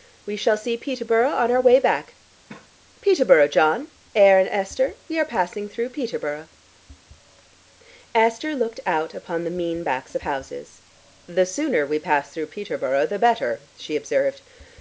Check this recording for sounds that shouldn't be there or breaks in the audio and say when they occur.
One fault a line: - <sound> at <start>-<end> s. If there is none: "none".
- cough at 2.5-2.7 s